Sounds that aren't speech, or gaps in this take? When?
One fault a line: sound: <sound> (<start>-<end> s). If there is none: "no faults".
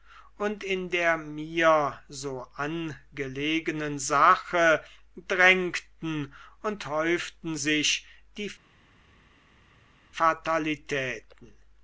no faults